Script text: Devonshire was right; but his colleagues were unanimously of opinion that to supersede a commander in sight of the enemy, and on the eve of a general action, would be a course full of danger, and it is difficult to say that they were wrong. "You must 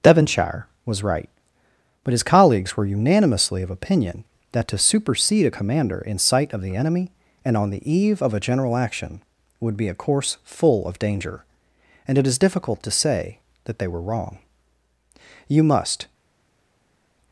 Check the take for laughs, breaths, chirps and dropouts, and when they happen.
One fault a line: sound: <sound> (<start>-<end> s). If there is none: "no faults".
no faults